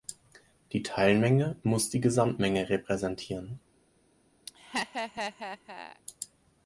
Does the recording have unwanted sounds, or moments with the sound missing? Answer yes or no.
yes